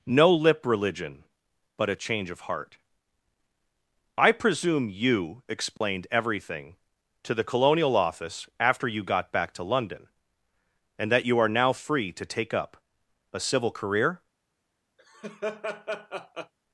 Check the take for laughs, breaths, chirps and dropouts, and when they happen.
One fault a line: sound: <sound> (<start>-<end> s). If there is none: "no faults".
sound: dropout (5.8-5.8 s)
sound: laugh (15.0-16.5 s)